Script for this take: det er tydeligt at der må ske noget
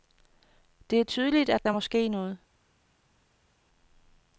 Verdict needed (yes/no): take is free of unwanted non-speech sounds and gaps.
yes